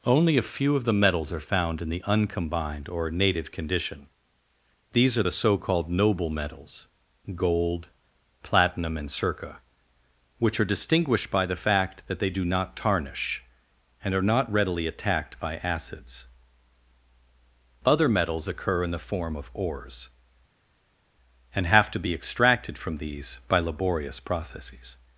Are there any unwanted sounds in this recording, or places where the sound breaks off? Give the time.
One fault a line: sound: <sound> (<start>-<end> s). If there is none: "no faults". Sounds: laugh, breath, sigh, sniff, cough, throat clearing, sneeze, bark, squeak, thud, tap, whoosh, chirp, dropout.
no faults